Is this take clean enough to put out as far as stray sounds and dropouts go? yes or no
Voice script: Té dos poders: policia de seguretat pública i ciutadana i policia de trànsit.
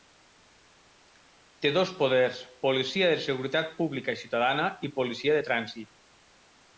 yes